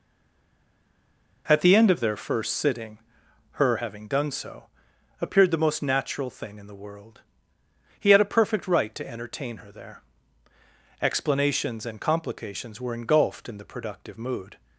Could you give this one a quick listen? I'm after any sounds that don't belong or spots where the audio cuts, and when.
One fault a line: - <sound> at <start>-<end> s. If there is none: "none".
none